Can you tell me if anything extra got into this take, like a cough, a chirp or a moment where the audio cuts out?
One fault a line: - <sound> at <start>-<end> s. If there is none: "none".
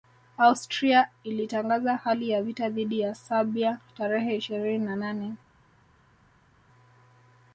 none